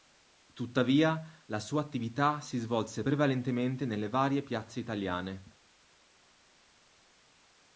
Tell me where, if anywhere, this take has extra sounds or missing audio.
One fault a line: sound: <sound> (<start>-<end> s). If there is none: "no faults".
no faults